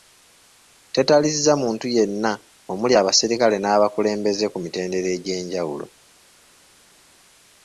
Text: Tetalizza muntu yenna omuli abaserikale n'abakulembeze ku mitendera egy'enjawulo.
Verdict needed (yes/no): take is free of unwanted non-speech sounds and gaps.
yes